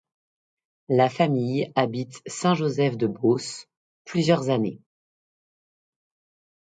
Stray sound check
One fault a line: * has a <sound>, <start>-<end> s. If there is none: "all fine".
all fine